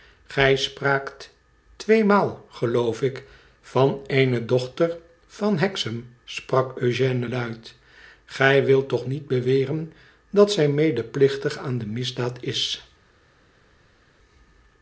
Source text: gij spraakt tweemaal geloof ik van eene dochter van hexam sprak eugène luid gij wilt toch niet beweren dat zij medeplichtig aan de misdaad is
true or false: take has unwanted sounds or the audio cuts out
false